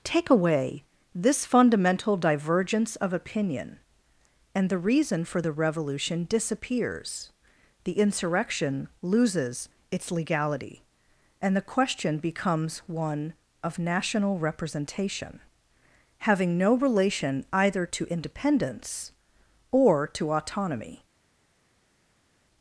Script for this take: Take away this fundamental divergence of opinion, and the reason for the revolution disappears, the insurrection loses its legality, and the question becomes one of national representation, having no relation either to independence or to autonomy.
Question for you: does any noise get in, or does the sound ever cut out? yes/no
no